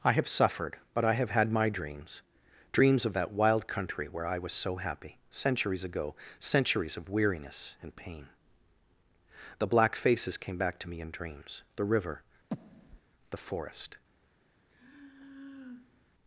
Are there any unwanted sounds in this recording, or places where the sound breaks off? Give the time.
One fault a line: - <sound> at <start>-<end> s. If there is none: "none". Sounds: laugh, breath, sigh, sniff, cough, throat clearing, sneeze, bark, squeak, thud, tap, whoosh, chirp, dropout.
- breath at 12.5-13.0 s
- sigh at 14.7-16.1 s